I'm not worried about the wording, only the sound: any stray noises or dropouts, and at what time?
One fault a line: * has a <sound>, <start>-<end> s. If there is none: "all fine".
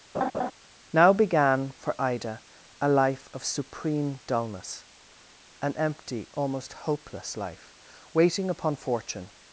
* has a laugh, 0.1-0.5 s